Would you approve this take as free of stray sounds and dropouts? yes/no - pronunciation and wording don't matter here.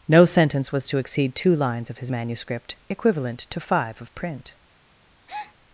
no